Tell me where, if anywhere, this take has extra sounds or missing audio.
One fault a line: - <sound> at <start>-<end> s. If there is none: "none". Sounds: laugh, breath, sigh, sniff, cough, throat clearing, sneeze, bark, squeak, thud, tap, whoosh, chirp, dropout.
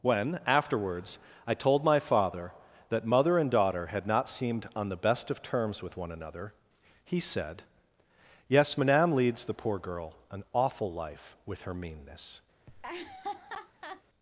- laugh at 12.7-14.0 s